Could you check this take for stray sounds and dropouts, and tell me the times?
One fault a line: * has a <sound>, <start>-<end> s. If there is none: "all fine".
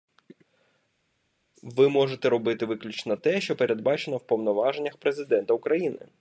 all fine